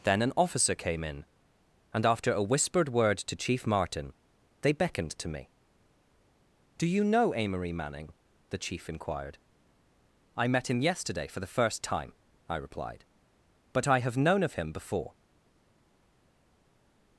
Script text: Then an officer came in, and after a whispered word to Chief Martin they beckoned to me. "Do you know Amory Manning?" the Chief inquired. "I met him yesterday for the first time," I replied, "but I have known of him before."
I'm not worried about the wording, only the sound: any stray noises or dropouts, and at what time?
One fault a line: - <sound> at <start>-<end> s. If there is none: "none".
none